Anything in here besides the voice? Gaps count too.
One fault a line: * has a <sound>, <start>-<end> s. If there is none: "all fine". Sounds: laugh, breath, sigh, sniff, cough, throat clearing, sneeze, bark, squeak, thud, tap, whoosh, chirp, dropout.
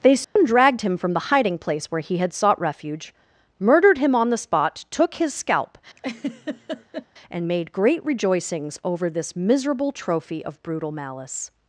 * has a dropout, 0.2-0.4 s
* has a laugh, 6.0-7.1 s